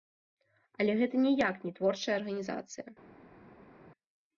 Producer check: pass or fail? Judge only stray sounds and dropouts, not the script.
pass